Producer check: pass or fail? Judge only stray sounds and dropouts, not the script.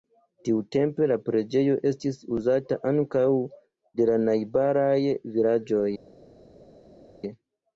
pass